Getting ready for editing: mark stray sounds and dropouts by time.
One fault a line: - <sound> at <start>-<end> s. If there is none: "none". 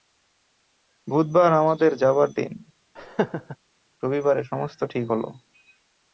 - laugh at 3.0-3.6 s